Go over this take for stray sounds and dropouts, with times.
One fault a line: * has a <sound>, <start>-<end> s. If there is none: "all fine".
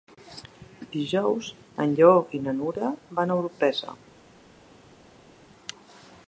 all fine